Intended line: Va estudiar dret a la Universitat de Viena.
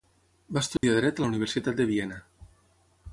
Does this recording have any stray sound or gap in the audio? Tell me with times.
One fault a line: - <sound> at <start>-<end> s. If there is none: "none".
- dropout at 0.8-0.8 s